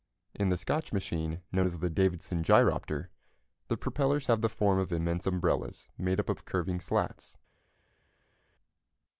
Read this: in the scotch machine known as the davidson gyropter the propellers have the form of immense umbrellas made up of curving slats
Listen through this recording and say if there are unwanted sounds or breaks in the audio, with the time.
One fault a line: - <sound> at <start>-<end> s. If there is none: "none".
none